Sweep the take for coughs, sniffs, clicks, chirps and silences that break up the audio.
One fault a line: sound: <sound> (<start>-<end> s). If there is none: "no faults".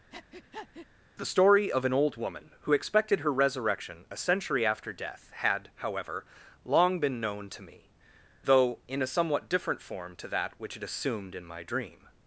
sound: breath (0.1-0.9 s)